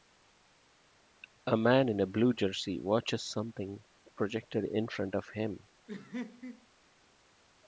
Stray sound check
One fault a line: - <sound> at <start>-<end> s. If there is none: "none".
- laugh at 5.9-6.7 s